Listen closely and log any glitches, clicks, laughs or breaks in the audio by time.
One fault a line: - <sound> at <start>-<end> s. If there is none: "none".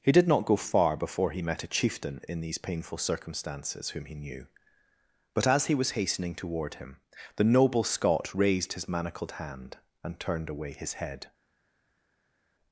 none